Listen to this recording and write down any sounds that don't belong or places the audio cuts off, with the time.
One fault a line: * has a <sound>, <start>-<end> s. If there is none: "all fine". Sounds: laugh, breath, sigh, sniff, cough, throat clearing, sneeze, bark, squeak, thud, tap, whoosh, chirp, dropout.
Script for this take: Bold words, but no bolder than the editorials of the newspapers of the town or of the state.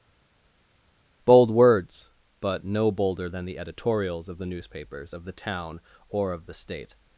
all fine